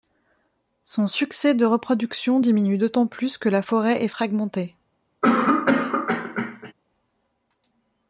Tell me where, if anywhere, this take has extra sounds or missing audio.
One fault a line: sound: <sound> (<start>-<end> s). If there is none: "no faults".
sound: cough (5.2-6.7 s)